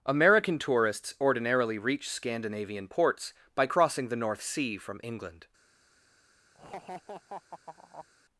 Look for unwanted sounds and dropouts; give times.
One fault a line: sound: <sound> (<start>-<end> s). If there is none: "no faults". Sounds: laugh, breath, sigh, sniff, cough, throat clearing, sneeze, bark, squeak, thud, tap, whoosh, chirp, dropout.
sound: laugh (6.5-8.1 s)